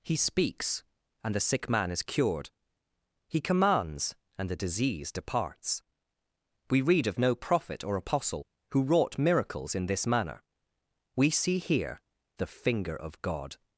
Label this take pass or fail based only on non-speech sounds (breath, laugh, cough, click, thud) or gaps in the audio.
pass